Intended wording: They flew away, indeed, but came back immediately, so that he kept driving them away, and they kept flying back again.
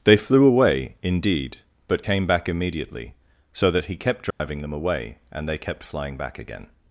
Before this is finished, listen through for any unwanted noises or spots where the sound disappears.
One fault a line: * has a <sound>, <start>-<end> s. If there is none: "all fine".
* has a dropout, 4.3-4.4 s